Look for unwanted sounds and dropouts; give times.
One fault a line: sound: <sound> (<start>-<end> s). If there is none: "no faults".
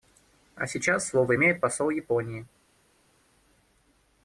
no faults